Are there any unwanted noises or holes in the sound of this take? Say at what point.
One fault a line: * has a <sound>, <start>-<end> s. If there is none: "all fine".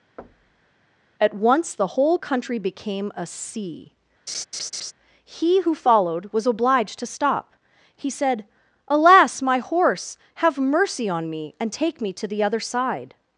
* has a thud, 0.2-0.8 s
* has a laugh, 4.3-4.9 s